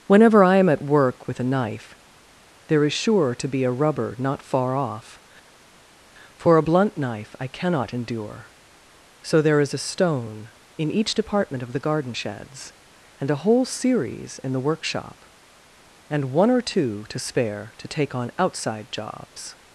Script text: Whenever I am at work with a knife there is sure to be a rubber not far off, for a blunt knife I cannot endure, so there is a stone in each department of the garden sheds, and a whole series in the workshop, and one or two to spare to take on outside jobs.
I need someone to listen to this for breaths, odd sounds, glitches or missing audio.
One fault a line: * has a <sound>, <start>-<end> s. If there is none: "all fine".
all fine